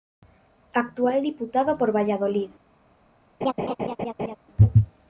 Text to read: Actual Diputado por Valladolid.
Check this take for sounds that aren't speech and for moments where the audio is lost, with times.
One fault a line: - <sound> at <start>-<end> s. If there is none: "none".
- laugh at 3.4-4.4 s